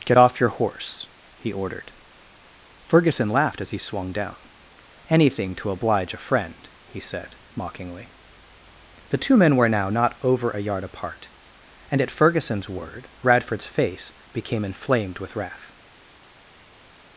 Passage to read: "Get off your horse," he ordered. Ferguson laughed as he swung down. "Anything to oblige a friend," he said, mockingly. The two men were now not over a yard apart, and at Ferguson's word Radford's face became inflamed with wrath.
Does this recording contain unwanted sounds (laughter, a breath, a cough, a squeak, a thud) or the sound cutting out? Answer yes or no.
no